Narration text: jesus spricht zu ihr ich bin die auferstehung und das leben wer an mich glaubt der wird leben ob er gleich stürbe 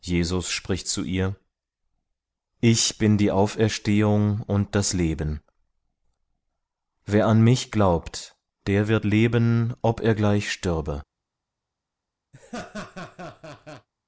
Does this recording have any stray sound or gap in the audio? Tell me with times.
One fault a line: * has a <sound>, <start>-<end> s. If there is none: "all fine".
* has a laugh, 12.3-13.9 s